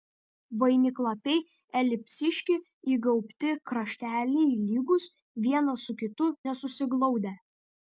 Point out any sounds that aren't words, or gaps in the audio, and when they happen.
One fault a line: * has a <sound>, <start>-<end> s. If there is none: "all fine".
all fine